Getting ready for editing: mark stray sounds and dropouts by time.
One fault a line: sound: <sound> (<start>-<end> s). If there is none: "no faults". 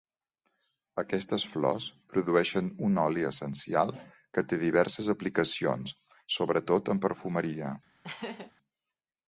sound: laugh (8.0-8.5 s)